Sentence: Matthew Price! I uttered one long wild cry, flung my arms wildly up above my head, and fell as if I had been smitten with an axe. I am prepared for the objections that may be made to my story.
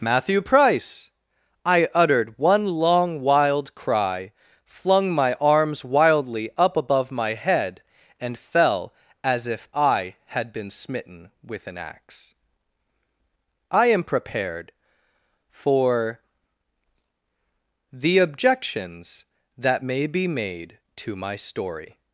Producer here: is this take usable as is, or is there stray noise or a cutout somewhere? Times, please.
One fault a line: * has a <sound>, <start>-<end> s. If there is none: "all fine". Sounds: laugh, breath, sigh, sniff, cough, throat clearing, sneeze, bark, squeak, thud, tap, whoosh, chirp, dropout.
all fine